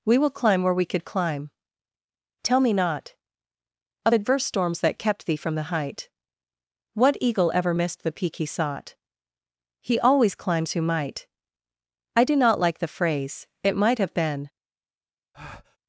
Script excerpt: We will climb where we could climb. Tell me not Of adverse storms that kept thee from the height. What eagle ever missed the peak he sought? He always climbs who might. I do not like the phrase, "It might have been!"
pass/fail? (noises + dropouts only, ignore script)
fail